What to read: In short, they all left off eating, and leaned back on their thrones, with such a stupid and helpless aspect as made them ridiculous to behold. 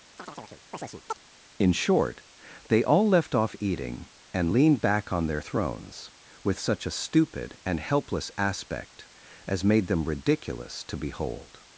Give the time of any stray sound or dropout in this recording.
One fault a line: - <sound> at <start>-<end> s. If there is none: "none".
- chirp at 0.2-1.2 s